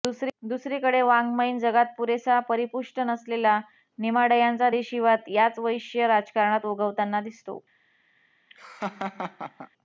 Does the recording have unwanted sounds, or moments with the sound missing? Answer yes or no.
yes